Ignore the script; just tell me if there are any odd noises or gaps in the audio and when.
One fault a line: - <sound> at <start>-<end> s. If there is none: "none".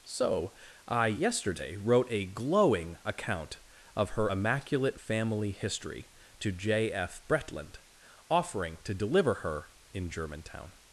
none